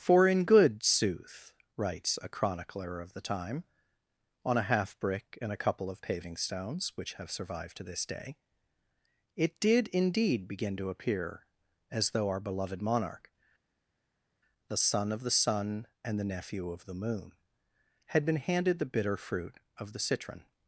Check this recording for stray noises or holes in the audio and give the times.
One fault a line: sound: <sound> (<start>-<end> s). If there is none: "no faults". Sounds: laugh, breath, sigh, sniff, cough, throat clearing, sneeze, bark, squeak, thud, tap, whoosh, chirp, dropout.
no faults